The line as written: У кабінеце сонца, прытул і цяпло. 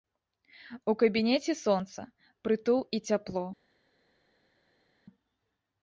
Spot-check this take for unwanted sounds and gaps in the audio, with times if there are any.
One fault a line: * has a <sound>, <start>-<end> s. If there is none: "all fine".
all fine